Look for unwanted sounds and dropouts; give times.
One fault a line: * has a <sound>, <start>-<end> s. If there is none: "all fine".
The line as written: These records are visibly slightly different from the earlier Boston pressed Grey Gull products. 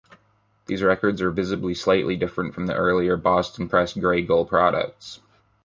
all fine